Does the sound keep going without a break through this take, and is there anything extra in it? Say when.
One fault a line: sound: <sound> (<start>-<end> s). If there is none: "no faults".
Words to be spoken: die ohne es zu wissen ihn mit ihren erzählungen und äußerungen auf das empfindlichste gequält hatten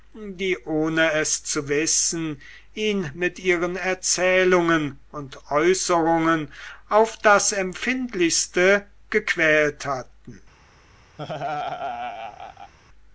sound: laugh (11.2-12.7 s)